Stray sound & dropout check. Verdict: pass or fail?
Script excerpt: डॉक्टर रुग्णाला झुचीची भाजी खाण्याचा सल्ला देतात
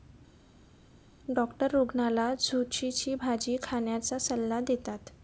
pass